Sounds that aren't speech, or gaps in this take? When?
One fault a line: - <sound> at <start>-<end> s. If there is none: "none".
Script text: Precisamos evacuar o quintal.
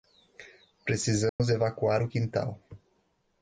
- dropout at 1.3-1.4 s